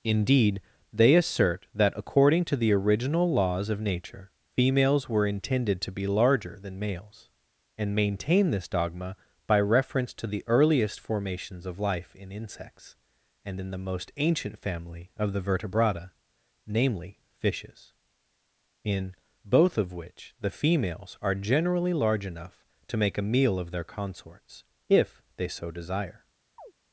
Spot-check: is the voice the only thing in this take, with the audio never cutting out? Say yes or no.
no